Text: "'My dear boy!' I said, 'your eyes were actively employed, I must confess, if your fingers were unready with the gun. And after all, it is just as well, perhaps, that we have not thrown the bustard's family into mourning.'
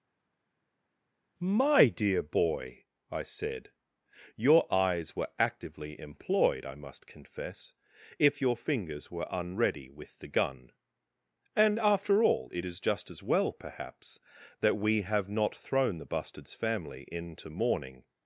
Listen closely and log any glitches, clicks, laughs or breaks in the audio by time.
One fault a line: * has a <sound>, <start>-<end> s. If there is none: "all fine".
all fine